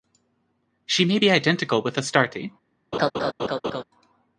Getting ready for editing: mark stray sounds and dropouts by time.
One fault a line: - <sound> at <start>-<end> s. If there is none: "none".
- laugh at 2.9-3.8 s